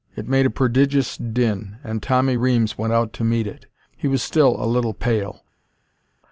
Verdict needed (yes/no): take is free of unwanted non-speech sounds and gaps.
yes